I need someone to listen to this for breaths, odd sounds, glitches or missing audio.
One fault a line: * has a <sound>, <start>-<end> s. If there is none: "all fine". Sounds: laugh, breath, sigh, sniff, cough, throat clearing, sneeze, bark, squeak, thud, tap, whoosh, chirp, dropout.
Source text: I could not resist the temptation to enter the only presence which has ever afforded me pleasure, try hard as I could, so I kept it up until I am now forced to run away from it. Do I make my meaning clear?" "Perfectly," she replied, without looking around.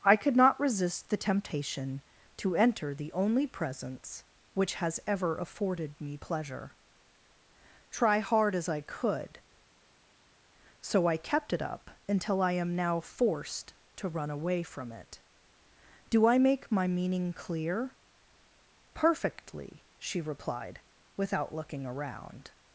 all fine